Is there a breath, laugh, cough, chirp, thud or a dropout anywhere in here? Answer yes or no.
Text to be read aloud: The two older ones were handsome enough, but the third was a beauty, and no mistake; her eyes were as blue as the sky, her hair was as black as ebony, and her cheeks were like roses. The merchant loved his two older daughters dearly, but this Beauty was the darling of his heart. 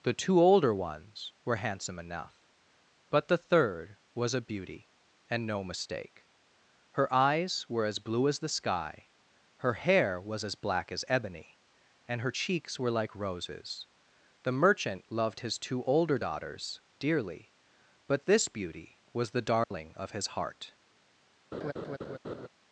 yes